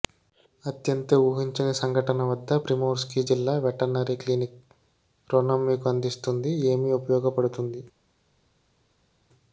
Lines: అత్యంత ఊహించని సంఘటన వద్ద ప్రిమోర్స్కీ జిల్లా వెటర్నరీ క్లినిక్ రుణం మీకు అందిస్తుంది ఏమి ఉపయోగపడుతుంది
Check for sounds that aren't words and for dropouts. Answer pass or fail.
pass